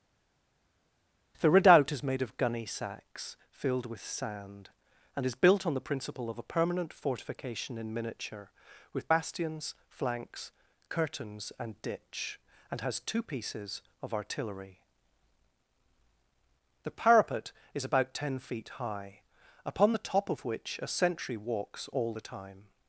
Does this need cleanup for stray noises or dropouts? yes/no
no